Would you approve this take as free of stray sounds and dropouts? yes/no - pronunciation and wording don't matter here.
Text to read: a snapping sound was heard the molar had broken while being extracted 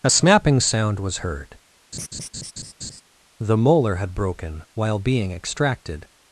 no